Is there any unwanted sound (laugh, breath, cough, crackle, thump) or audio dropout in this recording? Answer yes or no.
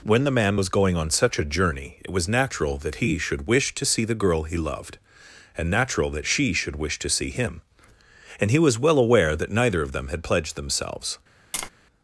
yes